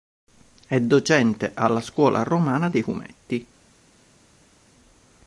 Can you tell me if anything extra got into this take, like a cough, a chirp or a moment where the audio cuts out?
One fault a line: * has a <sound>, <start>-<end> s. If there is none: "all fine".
all fine